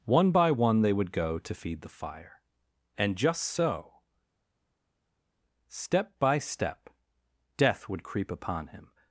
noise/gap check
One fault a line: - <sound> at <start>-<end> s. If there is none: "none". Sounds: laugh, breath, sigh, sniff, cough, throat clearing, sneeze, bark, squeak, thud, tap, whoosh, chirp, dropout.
none